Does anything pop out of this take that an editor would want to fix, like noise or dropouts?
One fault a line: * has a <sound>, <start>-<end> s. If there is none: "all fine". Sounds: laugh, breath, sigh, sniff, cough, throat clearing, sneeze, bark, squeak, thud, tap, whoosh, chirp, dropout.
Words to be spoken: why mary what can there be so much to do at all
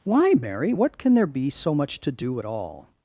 all fine